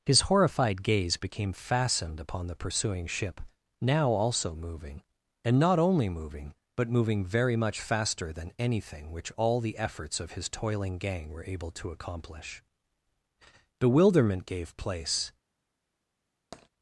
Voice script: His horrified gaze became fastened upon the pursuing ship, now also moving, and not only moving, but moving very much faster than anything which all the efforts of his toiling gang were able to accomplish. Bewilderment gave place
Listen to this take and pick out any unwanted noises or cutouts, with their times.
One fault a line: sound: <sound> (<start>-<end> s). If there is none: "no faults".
sound: tap (16.5-16.7 s)